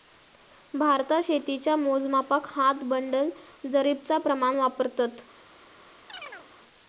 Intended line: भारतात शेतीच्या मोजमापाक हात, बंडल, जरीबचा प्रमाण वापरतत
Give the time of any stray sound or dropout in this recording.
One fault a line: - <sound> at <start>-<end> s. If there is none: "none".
- chirp at 6.1-6.5 s